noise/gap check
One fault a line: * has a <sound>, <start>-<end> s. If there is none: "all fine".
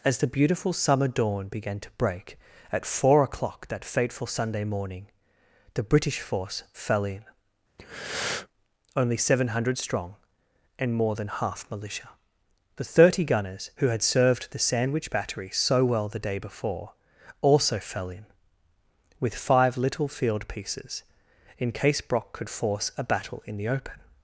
* has a breath, 7.8-8.5 s